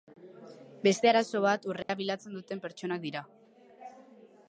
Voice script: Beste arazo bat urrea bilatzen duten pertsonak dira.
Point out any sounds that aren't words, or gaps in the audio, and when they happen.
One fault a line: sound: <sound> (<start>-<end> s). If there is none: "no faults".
sound: dropout (1.8-1.9 s)